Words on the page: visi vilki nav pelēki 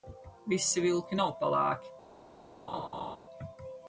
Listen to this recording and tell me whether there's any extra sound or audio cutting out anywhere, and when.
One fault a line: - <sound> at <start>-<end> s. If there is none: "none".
- laugh at 2.7-3.2 s